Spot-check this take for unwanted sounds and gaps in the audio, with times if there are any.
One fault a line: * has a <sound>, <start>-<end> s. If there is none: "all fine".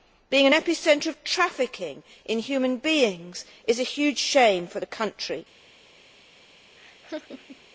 * has a laugh, 6.8-7.7 s